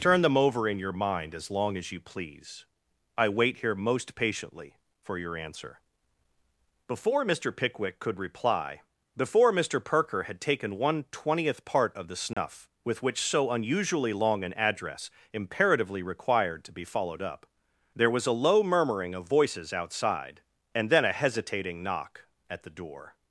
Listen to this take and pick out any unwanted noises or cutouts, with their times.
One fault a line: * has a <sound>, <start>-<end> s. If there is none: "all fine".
* has a dropout, 12.3-12.4 s